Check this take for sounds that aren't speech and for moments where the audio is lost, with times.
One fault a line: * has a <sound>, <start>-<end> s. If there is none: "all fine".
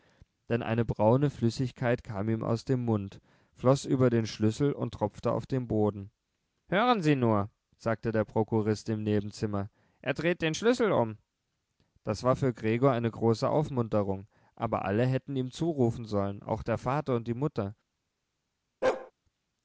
* has a bark, 18.8-19.1 s